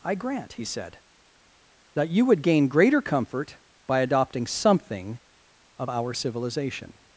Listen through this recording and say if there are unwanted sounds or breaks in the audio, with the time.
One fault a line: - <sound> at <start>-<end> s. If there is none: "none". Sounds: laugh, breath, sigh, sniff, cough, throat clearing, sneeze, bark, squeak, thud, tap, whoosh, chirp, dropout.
none